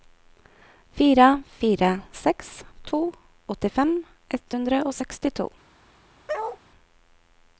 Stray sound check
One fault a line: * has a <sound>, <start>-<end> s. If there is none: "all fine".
* has a bark, 6.3-6.6 s